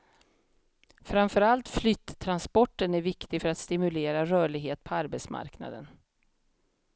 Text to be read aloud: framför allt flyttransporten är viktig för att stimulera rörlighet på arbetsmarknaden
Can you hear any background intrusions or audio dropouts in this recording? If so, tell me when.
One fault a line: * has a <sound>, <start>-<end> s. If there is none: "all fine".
all fine